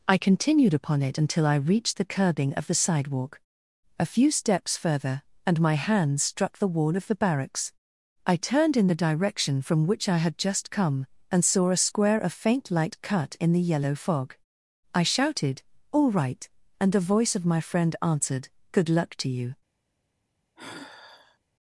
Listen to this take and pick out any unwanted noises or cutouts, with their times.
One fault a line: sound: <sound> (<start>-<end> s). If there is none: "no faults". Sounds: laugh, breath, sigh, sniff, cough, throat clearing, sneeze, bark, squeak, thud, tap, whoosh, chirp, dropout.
sound: sigh (20.6-21.4 s)